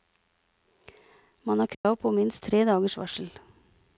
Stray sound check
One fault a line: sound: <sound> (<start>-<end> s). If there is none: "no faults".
sound: dropout (1.7-1.8 s)